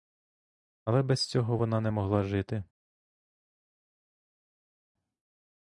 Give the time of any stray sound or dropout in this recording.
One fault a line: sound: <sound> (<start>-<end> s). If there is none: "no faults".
no faults